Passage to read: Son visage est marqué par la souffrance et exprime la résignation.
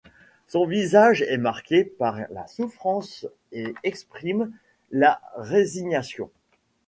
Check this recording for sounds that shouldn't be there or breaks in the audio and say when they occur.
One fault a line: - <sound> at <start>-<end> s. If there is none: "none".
none